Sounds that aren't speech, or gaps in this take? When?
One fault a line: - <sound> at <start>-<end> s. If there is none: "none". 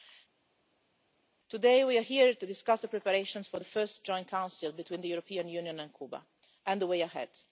none